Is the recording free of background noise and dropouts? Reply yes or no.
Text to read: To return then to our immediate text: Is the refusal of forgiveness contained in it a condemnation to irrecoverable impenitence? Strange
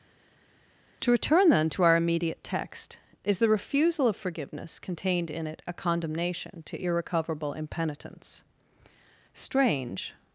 yes